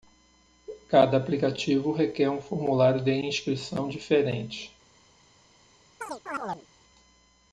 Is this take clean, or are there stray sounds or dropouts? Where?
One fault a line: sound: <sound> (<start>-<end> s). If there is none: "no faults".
sound: chirp (6.0-6.7 s)